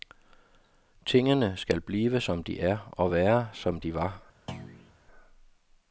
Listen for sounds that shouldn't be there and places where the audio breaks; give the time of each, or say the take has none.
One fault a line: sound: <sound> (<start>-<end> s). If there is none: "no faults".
sound: thud (4.5-4.9 s)